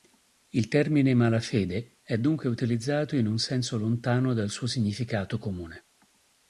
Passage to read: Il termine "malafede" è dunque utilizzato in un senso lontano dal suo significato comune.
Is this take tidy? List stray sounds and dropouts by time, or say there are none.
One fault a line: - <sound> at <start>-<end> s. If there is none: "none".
none